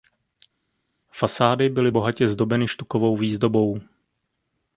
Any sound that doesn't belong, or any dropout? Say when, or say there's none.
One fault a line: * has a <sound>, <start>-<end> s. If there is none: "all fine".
all fine